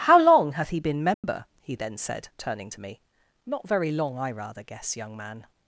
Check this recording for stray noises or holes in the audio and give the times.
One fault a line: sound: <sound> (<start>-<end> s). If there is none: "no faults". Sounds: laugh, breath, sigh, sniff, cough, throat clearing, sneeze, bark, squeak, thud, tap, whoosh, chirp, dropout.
sound: dropout (1.1-1.2 s)